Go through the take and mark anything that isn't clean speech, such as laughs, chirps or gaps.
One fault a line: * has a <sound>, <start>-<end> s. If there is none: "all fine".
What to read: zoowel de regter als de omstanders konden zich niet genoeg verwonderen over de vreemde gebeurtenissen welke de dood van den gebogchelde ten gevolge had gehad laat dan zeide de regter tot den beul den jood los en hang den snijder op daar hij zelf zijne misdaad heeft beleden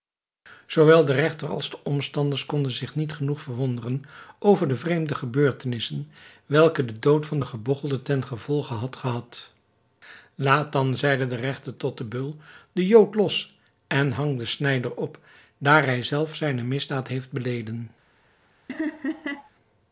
* has a laugh, 18.7-19.5 s